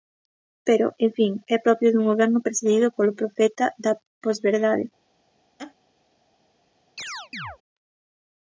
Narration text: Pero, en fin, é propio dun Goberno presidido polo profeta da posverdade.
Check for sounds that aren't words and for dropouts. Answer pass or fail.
fail